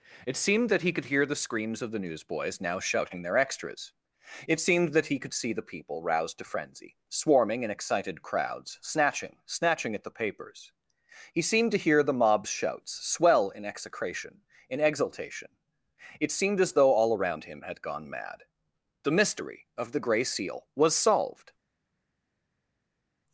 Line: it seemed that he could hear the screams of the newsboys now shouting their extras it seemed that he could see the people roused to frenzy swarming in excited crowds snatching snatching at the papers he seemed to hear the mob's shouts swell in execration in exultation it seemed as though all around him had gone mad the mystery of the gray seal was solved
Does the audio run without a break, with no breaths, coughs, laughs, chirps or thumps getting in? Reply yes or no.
yes